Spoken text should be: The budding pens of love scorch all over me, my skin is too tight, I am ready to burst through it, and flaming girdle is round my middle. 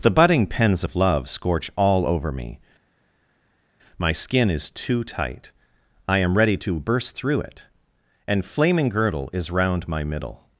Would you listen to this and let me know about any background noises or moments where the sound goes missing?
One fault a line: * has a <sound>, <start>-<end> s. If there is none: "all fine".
all fine